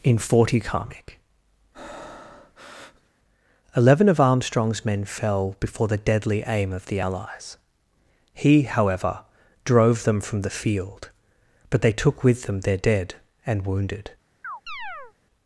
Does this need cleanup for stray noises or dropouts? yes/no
yes